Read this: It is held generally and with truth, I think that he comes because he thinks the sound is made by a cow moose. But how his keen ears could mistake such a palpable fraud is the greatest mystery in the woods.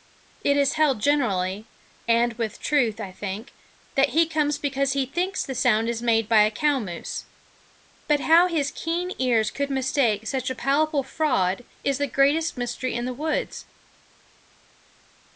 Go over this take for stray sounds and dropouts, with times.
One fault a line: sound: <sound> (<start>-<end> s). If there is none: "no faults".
no faults